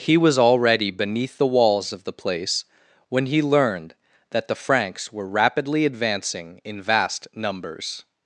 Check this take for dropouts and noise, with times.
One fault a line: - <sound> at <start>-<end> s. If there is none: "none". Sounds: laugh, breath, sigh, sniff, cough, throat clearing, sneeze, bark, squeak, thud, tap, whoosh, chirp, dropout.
none